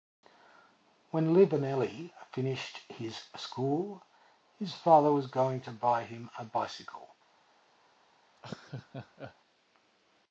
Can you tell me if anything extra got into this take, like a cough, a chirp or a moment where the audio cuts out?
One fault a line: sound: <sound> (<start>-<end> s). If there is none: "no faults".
sound: laugh (8.4-9.4 s)